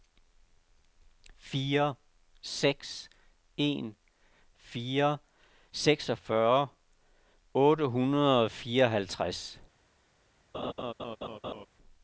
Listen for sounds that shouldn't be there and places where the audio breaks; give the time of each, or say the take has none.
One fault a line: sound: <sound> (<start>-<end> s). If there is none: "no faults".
sound: laugh (10.5-11.7 s)